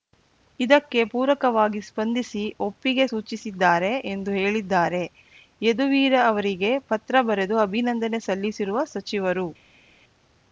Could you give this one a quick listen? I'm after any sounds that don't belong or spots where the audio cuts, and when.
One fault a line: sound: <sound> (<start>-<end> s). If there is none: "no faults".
no faults